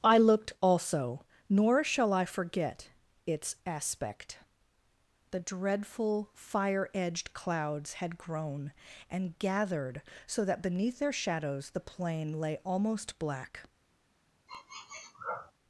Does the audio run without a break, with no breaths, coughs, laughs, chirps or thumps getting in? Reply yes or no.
no